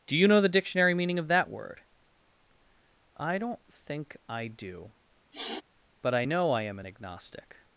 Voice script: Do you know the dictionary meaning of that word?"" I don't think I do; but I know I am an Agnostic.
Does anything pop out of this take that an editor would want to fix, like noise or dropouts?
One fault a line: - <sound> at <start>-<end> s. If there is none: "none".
- sniff at 5.3-5.6 s